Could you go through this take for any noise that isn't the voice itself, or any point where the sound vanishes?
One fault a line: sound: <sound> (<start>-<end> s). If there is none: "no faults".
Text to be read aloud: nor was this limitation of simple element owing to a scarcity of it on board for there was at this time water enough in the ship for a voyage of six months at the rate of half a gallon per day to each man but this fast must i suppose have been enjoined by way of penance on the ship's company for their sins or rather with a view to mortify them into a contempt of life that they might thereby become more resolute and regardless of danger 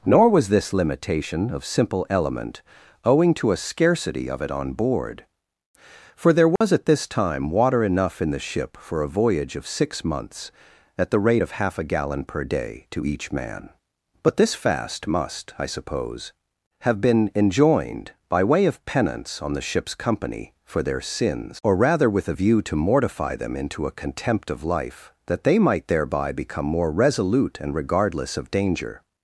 sound: dropout (6.6-6.6 s)